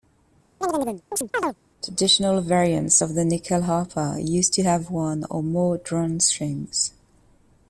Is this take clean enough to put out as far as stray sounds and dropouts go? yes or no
no